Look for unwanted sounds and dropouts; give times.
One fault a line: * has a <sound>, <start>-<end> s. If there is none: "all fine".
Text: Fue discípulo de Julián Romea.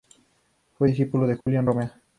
* has a dropout, 1.4-1.5 s